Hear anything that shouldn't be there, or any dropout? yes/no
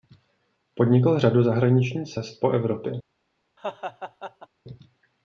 yes